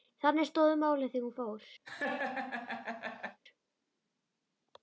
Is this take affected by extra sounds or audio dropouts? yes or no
yes